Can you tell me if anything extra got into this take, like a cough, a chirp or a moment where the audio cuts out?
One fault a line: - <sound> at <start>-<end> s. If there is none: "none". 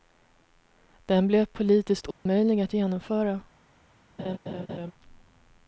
- dropout at 2.1-2.3 s
- laugh at 4.2-4.9 s